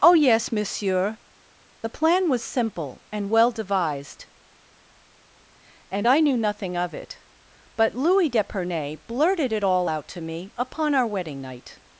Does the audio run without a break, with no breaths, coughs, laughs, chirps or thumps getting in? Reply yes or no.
yes